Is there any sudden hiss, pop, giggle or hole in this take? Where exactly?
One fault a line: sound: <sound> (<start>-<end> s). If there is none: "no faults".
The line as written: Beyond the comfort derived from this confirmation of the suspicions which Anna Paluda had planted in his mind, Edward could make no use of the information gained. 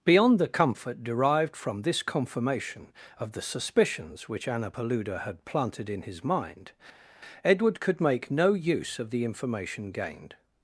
no faults